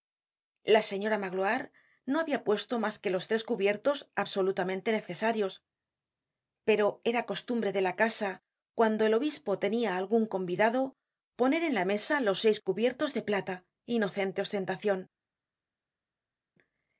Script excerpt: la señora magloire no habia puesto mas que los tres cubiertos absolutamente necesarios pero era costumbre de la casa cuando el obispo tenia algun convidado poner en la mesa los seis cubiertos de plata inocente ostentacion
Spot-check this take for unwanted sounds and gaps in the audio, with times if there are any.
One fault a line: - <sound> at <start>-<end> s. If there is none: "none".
none